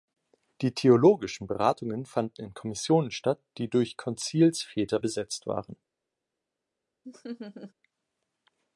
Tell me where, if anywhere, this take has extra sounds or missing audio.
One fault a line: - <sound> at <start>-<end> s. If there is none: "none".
- laugh at 7.0-7.7 s